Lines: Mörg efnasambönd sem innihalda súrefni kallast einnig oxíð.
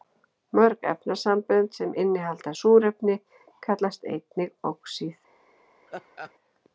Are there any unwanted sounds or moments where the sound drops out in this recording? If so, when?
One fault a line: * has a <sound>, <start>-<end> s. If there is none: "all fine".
* has a laugh, 5.9-6.3 s